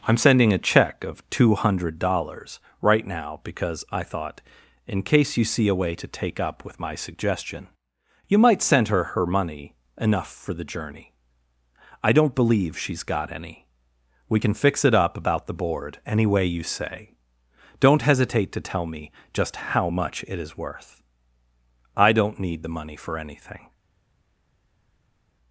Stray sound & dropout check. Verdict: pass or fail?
pass